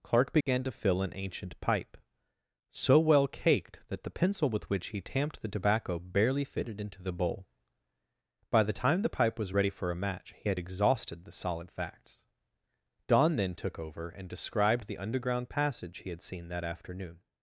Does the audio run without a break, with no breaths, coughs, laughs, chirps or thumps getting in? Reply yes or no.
no